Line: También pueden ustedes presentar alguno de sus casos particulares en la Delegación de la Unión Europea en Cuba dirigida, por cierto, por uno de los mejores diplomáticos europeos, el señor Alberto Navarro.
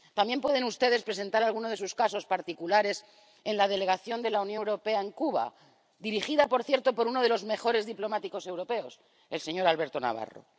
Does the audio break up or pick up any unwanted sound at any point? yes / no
no